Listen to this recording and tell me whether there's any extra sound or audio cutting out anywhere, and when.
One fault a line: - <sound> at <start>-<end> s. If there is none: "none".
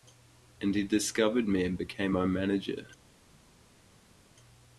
none